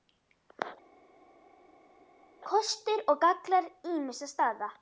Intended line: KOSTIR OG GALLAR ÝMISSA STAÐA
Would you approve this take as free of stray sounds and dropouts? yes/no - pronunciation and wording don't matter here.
yes